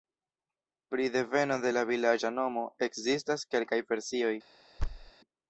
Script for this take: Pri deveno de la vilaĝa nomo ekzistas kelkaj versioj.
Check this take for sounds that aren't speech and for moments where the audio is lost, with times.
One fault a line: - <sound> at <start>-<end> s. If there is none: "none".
- thud at 4.8-5.1 s